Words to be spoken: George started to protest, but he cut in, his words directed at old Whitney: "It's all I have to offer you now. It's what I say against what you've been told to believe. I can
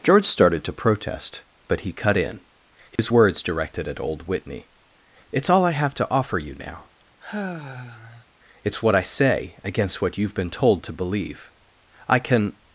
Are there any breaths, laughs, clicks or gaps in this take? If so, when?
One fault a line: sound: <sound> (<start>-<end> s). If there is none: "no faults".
sound: dropout (3.0-3.0 s)
sound: sigh (7.2-8.3 s)